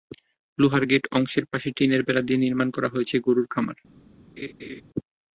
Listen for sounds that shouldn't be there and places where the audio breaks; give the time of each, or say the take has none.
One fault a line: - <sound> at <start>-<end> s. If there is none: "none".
- laugh at 4.4-4.8 s